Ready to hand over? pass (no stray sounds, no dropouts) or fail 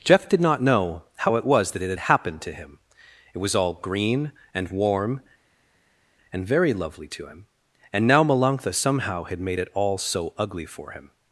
pass